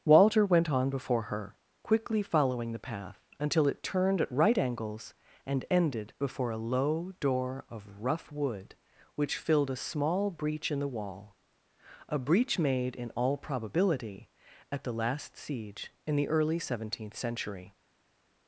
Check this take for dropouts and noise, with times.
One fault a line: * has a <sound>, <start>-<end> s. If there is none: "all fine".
all fine